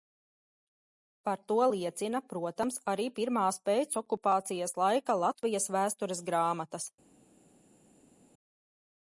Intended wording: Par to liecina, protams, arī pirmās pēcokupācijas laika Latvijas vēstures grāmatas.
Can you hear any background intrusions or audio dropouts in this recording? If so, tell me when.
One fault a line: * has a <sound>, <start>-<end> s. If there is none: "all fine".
all fine